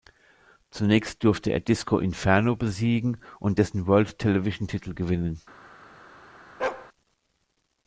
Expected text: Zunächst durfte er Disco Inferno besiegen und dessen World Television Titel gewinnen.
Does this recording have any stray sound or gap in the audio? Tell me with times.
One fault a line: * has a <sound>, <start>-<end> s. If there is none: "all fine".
* has a bark, 6.6-6.9 s